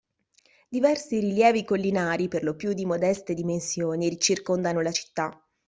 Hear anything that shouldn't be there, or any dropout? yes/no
no